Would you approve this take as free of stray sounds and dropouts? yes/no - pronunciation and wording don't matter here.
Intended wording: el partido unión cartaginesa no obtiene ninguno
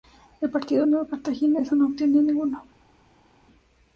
yes